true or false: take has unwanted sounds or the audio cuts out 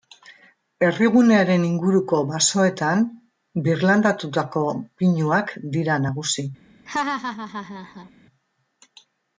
true